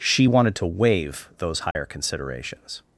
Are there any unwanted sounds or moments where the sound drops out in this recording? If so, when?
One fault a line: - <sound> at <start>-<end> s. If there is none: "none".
- dropout at 1.7-1.8 s